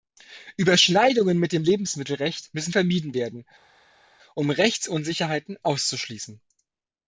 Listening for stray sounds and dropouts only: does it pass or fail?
pass